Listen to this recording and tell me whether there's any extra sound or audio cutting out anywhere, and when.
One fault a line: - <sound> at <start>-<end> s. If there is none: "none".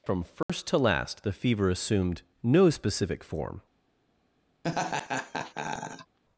- dropout at 0.4-0.5 s
- laugh at 4.6-6.2 s